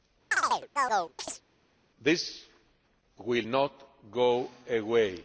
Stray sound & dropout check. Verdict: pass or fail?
fail